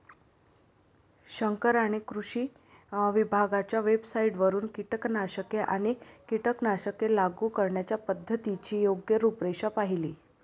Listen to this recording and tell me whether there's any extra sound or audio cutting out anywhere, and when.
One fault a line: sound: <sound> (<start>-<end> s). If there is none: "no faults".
no faults